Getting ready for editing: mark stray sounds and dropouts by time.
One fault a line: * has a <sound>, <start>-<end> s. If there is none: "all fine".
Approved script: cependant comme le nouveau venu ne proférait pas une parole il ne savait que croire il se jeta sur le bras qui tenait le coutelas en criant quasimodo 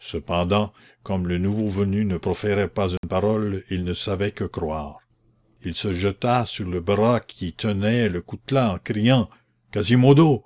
* has a dropout, 3.0-3.0 s